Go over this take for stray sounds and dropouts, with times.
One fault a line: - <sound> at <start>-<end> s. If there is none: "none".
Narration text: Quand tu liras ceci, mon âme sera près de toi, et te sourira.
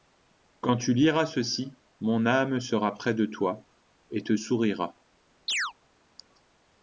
- chirp at 5.5-5.7 s